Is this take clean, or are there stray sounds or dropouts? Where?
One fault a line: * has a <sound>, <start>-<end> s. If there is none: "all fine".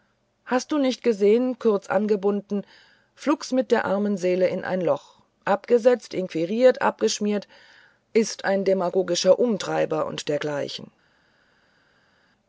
all fine